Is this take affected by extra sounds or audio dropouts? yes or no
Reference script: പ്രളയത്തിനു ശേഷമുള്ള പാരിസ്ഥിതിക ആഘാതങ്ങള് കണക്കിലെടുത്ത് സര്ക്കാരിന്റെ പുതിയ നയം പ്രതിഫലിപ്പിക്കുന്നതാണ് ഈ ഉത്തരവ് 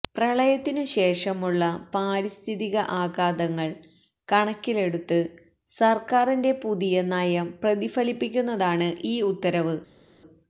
no